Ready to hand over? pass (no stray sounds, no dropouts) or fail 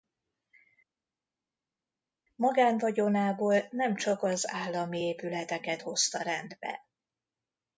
pass